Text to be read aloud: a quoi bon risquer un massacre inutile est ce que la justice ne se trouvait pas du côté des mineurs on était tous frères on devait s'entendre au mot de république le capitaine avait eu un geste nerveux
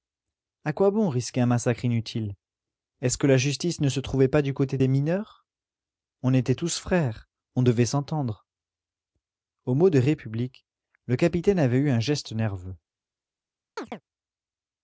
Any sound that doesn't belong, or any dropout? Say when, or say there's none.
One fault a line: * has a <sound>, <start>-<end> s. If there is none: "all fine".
* has a chirp, 13.8-14.0 s